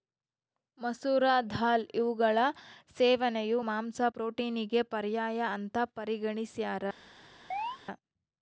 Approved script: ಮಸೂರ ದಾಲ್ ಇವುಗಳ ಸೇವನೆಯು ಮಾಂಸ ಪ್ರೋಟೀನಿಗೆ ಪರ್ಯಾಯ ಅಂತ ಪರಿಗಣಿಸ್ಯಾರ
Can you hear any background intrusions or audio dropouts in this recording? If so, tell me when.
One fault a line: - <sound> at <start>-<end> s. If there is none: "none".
- chirp at 7.5-7.8 s